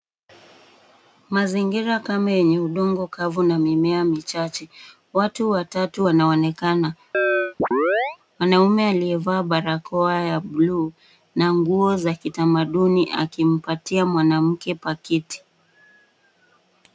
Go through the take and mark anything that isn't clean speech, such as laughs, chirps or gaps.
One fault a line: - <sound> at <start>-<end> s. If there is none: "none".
- chirp at 7.1-8.2 s